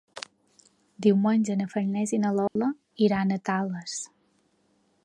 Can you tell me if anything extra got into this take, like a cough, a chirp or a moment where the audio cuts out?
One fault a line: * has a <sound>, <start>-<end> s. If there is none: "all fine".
* has a dropout, 2.5-2.6 s